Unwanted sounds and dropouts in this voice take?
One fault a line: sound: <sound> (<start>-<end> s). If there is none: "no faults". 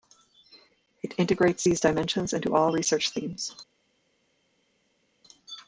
no faults